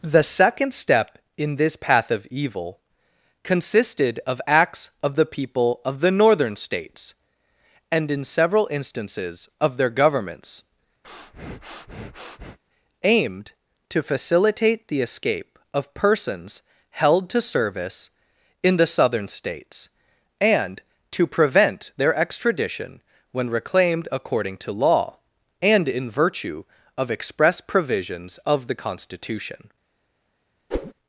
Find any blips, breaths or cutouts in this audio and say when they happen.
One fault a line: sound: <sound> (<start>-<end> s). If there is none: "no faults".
sound: breath (11.0-12.6 s)
sound: whoosh (30.7-30.9 s)